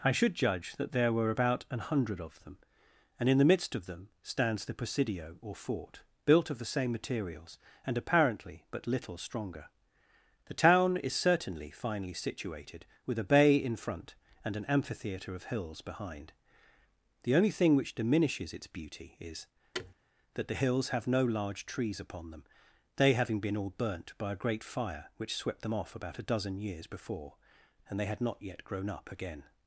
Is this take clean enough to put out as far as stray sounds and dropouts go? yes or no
no